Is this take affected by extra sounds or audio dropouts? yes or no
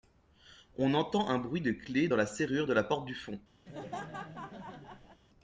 yes